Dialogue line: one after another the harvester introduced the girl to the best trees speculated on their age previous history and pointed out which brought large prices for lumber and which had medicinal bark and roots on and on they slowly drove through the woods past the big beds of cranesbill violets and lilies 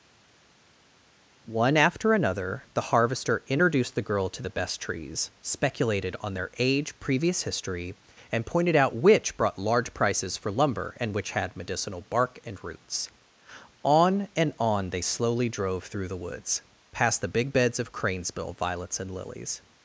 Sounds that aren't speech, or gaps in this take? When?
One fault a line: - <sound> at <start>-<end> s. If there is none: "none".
none